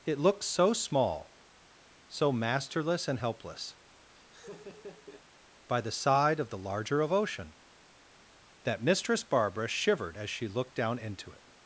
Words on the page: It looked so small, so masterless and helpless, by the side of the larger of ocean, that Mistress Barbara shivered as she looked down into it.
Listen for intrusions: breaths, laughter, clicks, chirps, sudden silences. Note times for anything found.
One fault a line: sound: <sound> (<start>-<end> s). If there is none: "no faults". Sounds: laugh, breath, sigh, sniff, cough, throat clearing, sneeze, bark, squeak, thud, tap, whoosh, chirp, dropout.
sound: laugh (4.1-5.2 s)